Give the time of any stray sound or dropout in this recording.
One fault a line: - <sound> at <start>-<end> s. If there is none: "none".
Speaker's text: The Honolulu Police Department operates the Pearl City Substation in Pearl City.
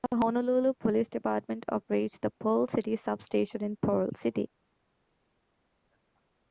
none